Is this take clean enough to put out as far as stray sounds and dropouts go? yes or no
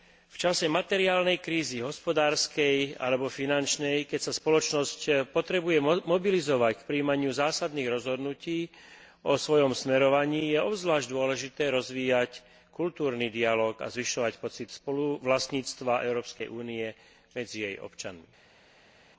yes